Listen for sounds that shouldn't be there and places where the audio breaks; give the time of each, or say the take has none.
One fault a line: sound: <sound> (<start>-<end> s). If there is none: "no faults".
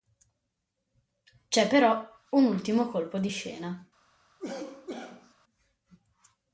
sound: cough (4.4-5.3 s)